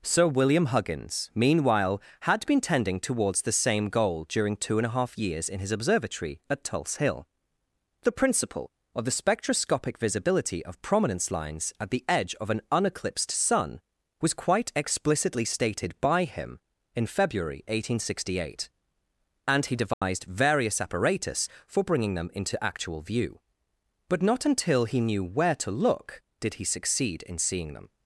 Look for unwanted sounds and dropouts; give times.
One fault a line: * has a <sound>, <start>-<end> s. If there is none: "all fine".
* has a dropout, 19.9-20.0 s